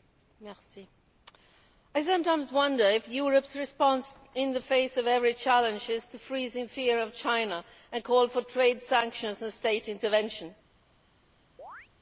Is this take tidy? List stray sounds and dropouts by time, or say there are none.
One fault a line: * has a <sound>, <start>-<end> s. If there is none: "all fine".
* has a chirp, 11.6-11.9 s